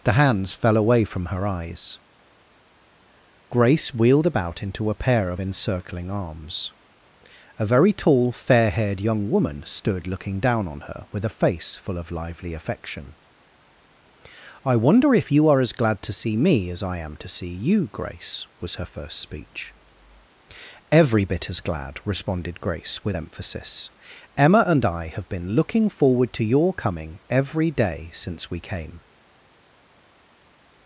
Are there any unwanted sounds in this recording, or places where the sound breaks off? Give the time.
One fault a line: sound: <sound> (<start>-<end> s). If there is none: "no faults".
no faults